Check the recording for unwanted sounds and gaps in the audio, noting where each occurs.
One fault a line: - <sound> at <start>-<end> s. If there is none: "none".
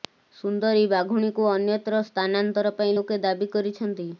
none